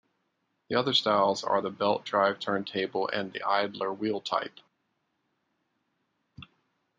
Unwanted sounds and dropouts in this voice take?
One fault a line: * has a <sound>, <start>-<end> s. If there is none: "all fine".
all fine